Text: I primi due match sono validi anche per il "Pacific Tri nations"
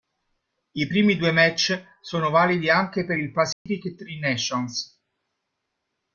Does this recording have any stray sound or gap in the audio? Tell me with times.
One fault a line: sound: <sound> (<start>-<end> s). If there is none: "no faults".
sound: dropout (3.5-3.7 s)